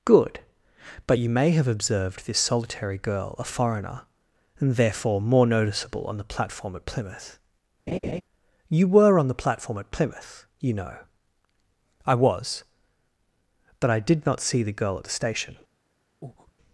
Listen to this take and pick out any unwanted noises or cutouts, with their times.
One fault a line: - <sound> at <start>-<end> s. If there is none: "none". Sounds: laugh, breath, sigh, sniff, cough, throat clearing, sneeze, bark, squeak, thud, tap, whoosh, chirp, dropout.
- laugh at 7.9-8.2 s
- breath at 16.2-16.5 s